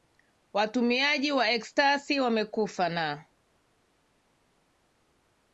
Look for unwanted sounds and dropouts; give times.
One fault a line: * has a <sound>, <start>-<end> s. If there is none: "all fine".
all fine